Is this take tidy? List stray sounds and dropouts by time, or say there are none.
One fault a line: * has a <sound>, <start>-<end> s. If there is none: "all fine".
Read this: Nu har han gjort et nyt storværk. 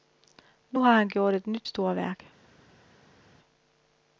all fine